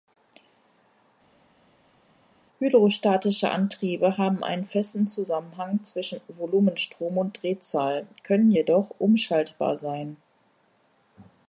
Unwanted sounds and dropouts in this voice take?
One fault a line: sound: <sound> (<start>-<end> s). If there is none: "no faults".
no faults